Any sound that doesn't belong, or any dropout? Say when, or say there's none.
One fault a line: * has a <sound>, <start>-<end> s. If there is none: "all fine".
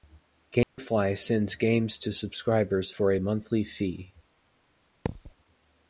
* has a dropout, 0.6-0.8 s
* has a thud, 5.1-5.3 s